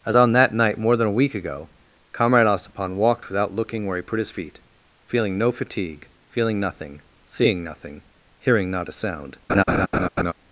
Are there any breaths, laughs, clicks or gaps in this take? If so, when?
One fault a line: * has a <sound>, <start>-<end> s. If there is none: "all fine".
* has a laugh, 9.5-10.3 s